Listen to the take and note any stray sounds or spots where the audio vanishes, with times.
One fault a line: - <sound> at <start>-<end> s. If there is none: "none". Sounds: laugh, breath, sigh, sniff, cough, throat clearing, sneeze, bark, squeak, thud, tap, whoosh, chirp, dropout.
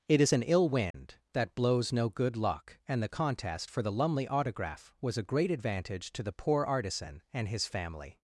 - dropout at 0.9-0.9 s